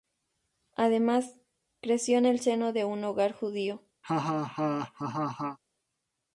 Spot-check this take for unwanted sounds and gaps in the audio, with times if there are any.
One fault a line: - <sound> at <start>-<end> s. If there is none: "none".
- laugh at 4.0-5.6 s